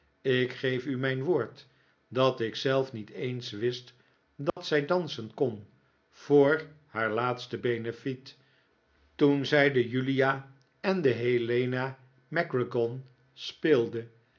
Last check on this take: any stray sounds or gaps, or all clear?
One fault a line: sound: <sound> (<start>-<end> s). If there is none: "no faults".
sound: dropout (4.5-4.6 s)